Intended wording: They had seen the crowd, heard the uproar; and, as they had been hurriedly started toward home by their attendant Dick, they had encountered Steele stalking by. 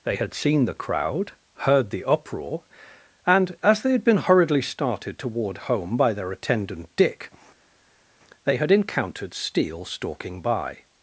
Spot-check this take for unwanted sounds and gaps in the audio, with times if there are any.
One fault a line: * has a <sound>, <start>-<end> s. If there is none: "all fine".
all fine